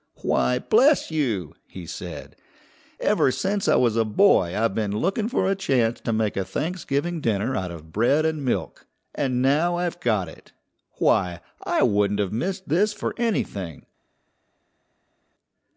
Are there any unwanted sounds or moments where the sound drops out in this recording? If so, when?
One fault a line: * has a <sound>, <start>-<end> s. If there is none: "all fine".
all fine